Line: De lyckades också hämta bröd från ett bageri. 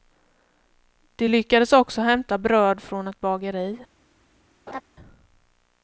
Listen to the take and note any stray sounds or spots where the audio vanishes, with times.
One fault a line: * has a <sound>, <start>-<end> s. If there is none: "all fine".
* has a laugh, 4.7-4.8 s